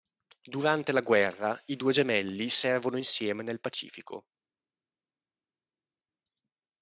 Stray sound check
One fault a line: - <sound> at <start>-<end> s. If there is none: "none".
none